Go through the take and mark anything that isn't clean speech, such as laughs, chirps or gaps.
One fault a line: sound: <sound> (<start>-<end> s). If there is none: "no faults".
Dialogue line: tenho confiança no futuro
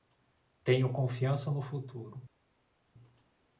no faults